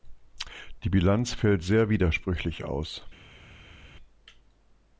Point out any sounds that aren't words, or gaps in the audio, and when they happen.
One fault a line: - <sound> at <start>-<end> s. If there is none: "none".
none